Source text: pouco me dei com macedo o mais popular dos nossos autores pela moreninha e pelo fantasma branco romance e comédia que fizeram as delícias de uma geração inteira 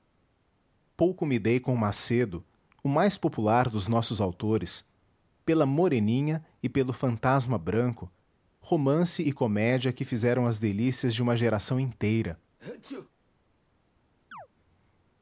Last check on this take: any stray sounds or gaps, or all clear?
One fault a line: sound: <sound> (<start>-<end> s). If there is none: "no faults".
sound: sneeze (12.6-13.1 s)
sound: chirp (14.3-14.5 s)